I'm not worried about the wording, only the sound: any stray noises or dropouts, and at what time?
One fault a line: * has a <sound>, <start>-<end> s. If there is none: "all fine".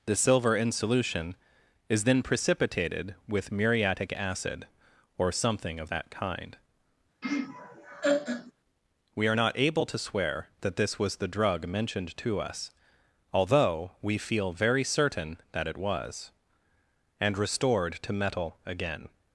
* has a laugh, 7.2-8.5 s